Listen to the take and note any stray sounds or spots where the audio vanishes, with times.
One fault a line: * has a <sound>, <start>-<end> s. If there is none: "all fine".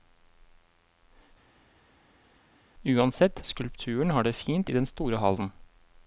all fine